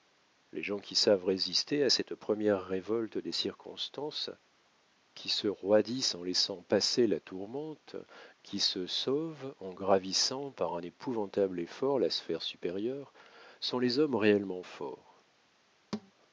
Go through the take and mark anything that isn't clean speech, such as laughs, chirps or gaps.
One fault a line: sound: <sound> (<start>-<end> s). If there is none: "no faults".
sound: thud (15.9-16.1 s)